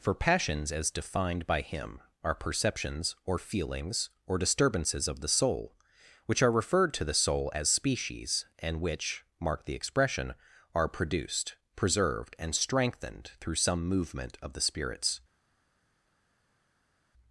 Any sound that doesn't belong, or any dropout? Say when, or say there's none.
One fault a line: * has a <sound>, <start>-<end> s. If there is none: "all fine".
all fine